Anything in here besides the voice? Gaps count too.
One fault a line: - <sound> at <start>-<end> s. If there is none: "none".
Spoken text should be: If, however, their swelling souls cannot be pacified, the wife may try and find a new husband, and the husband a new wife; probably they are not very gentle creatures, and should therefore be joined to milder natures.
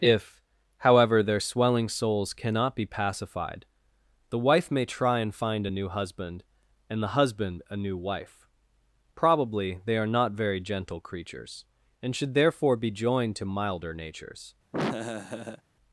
- laugh at 14.7-15.6 s